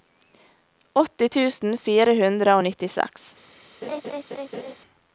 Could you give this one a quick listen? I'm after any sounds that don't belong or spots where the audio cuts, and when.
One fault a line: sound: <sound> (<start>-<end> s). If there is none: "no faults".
sound: laugh (3.8-4.8 s)